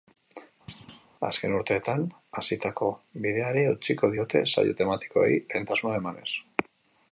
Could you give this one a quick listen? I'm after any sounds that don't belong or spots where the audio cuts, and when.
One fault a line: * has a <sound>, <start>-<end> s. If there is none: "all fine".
* has a thud, 0.7-1.1 s